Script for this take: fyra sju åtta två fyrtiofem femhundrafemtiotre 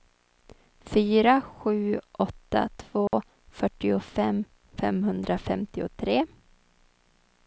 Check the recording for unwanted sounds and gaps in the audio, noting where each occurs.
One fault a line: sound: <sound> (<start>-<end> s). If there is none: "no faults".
sound: dropout (3.1-3.1 s)